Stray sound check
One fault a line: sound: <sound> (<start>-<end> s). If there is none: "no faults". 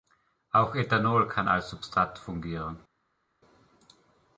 no faults